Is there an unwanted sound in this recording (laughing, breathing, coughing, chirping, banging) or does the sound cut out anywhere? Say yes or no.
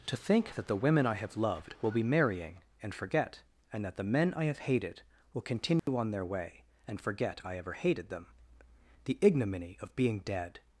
yes